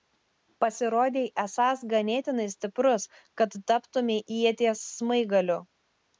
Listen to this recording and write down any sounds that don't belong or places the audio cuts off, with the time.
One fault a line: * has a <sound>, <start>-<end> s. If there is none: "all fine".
all fine